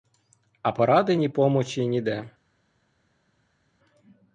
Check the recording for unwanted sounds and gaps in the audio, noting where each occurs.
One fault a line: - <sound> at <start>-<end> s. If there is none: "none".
none